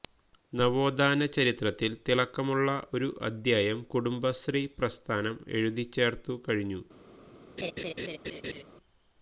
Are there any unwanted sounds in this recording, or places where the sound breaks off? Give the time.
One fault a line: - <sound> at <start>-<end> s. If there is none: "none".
- laugh at 7.6-8.6 s